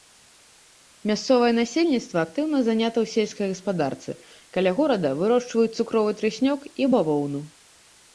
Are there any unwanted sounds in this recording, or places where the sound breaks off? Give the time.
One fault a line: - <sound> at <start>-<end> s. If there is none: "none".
none